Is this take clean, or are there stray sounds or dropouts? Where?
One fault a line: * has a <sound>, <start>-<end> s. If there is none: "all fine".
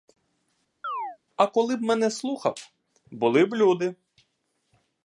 * has a chirp, 0.8-1.2 s